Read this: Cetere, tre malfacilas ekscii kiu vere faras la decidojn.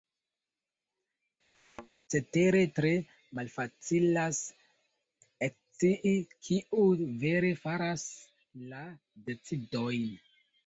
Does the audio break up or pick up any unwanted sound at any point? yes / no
yes